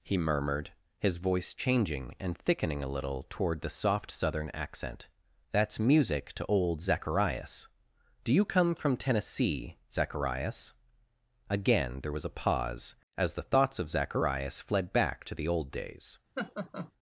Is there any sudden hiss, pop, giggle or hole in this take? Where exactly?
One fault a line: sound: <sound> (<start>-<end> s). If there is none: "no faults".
sound: laugh (16.4-16.9 s)